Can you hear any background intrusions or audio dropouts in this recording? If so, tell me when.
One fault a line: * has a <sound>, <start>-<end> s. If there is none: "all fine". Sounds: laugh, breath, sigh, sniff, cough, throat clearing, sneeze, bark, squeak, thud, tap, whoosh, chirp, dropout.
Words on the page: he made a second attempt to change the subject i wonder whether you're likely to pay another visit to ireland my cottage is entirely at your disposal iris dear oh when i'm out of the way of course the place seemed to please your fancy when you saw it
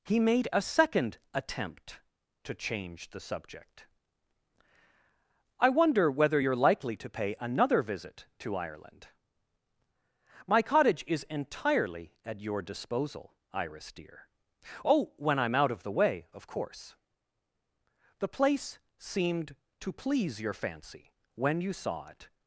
all fine